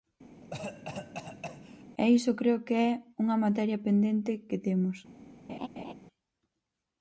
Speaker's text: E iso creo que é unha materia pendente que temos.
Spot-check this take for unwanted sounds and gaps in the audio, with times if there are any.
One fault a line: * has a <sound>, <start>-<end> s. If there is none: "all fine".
* has a cough, 0.4-1.8 s
* has a laugh, 5.5-5.9 s